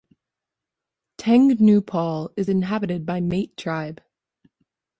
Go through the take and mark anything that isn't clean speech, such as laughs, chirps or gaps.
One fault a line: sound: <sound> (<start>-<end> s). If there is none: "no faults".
no faults